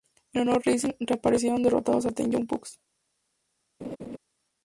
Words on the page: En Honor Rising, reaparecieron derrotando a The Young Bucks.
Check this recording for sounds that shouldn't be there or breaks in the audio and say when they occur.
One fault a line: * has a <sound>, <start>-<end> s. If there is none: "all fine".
* has a laugh, 3.8-4.2 s